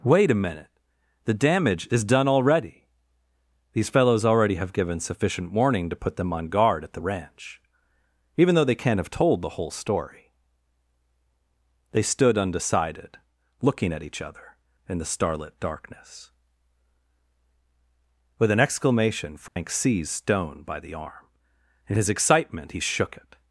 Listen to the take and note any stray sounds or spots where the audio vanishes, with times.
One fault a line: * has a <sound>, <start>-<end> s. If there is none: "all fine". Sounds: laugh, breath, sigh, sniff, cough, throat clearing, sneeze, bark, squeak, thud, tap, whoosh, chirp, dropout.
* has a dropout, 19.5-19.6 s